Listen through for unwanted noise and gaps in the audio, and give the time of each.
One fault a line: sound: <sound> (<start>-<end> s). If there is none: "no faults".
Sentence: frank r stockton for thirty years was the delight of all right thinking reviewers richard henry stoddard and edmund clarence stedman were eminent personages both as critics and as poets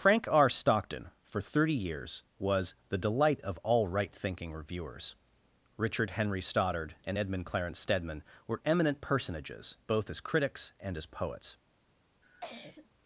sound: cough (12.2-12.9 s)